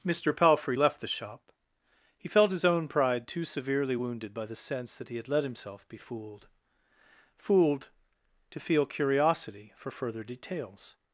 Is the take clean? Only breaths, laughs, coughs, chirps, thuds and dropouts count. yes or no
yes